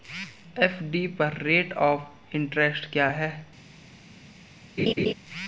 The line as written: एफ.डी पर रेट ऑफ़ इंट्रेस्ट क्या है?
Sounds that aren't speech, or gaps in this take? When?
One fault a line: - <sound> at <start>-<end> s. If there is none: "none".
- laugh at 4.8-5.1 s